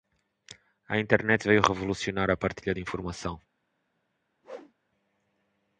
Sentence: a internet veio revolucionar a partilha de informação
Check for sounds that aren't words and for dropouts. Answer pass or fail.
fail